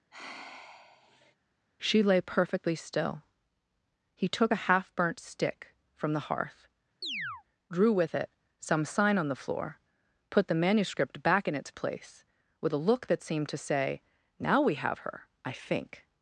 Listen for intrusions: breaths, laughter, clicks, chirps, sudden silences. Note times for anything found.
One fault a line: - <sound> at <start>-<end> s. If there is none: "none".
- sigh at 0.1-1.4 s
- chirp at 7.0-7.4 s